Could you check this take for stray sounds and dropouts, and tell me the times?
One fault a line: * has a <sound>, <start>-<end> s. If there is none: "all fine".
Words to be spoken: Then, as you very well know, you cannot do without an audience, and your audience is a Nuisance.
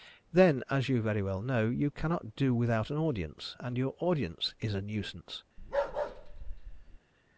* has a bark, 5.6-7.0 s